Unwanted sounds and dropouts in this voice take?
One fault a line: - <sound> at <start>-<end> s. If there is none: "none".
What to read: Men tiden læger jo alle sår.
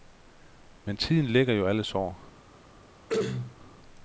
- throat clearing at 3.1-3.6 s